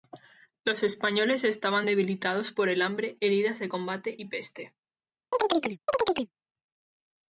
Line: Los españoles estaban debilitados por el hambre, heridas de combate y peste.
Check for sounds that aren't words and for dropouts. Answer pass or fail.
fail